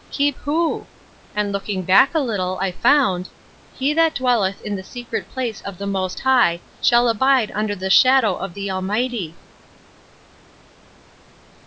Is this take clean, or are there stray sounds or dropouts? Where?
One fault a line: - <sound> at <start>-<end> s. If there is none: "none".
none